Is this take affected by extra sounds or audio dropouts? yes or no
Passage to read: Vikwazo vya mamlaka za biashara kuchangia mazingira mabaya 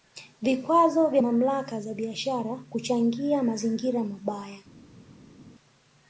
no